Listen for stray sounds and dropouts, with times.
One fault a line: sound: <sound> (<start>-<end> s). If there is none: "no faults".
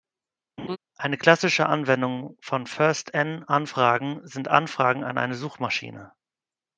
sound: laugh (0.6-0.8 s)